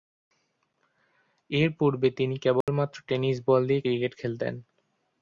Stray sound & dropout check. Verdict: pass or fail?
fail